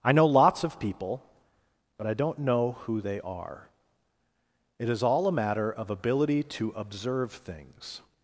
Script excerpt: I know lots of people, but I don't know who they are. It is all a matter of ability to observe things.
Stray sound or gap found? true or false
false